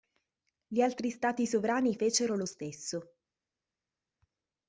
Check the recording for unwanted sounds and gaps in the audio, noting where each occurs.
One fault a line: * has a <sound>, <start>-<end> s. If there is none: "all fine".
all fine